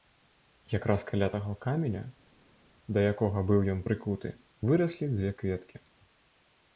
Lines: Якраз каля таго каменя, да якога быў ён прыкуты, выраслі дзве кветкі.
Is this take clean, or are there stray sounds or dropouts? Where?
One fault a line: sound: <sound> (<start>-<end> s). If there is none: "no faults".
no faults